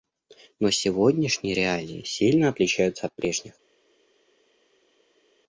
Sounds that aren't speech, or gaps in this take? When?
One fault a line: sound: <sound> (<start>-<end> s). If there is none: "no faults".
no faults